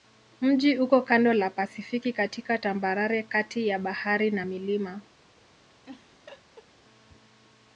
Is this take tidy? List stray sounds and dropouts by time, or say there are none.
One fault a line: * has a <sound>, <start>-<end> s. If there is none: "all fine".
* has a laugh, 5.8-6.7 s